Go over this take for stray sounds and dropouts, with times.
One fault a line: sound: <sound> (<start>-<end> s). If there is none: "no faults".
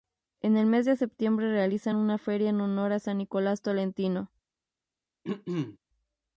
sound: throat clearing (5.2-5.8 s)